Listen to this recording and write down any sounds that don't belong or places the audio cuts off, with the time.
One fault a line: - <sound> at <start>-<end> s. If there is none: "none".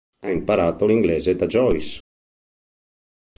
none